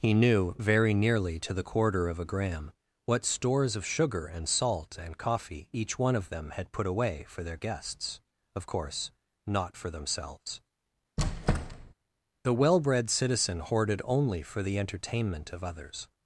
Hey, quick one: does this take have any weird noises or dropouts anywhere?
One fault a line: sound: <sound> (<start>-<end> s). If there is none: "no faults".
sound: squeak (11.2-11.9 s)